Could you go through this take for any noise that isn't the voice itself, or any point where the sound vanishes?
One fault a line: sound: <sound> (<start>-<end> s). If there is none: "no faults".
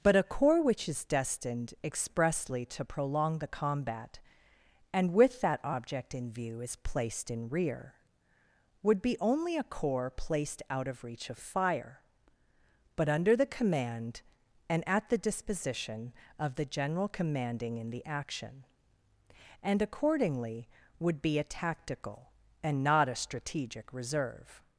no faults